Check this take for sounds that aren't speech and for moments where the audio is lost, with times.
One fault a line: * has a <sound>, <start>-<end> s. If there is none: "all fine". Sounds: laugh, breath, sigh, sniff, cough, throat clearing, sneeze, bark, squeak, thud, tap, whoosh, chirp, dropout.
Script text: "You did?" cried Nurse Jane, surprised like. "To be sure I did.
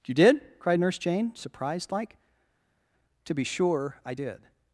all fine